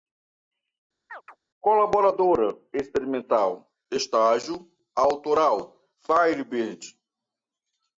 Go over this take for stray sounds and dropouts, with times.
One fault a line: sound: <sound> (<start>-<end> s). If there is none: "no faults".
sound: chirp (1.1-1.4 s)